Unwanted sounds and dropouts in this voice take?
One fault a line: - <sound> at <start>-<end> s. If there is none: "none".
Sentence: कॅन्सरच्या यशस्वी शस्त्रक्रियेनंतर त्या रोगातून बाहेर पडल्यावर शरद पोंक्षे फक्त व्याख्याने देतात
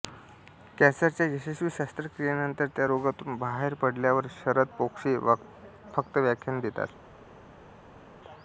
none